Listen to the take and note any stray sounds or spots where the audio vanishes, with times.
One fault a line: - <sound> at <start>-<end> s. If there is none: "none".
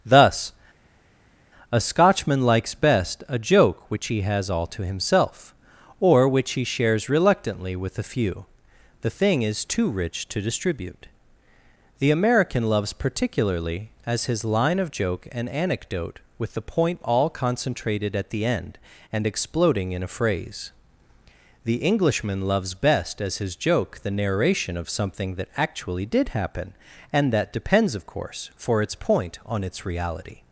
none